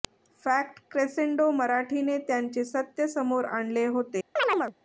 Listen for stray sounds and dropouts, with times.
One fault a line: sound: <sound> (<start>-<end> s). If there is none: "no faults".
sound: chirp (4.4-4.7 s)